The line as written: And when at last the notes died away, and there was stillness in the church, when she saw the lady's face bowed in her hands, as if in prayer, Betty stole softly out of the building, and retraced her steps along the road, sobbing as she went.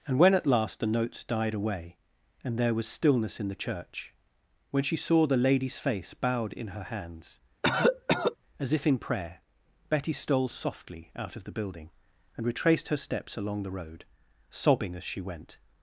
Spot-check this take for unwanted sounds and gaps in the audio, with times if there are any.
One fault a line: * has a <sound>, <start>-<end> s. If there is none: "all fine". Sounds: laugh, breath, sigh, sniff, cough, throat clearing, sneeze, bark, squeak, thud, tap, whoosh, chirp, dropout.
* has a cough, 7.6-8.4 s